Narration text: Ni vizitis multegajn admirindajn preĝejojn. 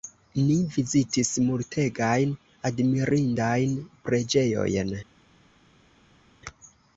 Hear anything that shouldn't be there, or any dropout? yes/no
no